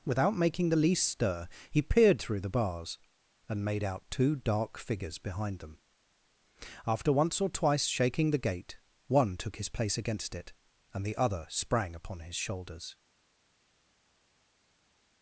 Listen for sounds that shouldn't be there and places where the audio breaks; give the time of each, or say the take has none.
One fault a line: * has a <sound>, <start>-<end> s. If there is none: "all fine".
all fine